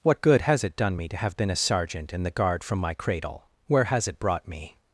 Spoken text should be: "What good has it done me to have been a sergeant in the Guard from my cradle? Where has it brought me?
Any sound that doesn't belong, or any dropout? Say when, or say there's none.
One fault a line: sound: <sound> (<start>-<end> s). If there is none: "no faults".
no faults